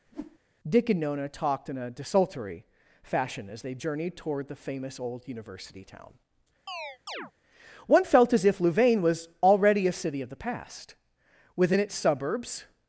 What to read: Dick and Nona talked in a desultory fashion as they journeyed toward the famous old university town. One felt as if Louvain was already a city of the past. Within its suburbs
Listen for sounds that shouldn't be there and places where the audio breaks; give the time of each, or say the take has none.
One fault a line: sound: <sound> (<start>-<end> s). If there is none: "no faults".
sound: whoosh (0.1-0.4 s)
sound: chirp (6.7-7.3 s)